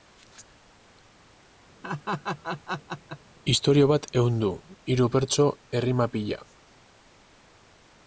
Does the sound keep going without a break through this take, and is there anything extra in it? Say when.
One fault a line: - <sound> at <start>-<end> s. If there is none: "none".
- laugh at 1.8-3.2 s